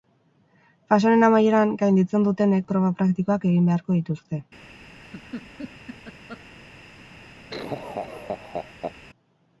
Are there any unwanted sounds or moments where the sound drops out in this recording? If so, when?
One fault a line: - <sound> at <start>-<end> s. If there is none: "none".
- laugh at 5.0-6.4 s
- laugh at 7.5-8.9 s